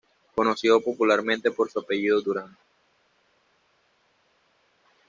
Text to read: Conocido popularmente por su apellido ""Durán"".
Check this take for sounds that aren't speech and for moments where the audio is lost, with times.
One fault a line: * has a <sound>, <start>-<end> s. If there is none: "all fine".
all fine